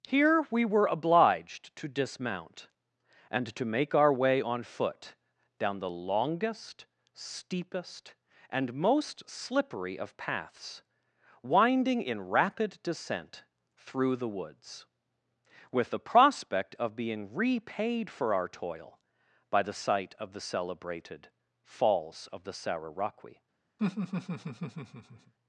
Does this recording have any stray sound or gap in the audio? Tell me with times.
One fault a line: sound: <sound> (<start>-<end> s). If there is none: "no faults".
sound: laugh (23.8-25.3 s)